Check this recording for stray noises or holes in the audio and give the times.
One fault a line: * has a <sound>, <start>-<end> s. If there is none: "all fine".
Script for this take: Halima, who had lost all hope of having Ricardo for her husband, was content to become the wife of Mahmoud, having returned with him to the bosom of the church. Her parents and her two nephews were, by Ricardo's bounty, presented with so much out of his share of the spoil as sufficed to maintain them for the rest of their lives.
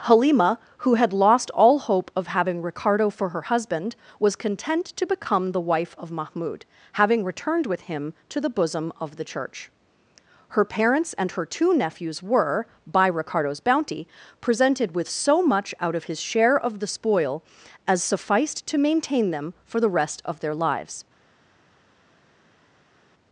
all fine